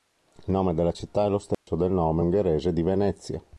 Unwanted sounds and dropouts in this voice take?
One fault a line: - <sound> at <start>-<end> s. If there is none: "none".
- dropout at 1.5-1.7 s